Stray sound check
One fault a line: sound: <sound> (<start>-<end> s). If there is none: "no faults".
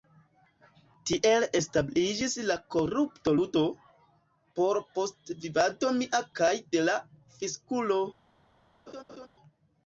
sound: laugh (8.9-9.3 s)